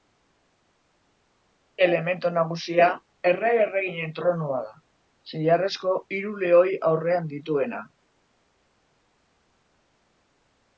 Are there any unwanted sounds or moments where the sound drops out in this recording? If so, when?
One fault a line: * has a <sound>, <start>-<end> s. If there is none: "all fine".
all fine